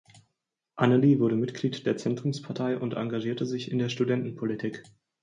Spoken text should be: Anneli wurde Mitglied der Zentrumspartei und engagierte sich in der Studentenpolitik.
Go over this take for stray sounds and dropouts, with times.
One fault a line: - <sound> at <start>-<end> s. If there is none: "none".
none